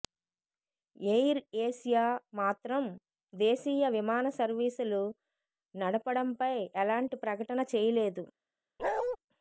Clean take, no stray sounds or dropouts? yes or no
no